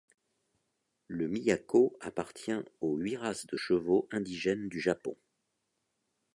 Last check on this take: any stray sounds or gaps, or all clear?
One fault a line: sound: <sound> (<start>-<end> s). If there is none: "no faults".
no faults